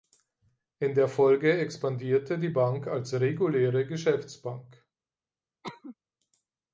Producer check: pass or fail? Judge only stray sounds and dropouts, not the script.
fail